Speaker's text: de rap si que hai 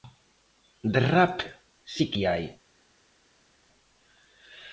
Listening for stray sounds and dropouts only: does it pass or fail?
pass